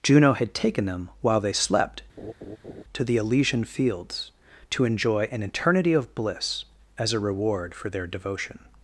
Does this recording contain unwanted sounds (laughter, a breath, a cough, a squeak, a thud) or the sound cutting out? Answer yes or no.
yes